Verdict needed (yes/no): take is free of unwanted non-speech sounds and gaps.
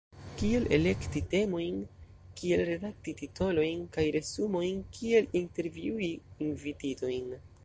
yes